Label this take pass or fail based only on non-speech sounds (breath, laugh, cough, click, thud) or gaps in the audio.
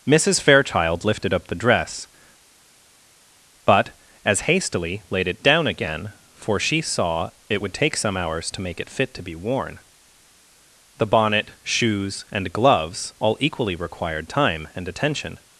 pass